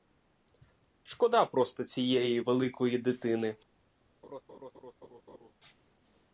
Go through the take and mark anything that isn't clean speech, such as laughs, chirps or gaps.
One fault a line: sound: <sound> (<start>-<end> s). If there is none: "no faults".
sound: laugh (4.2-5.5 s)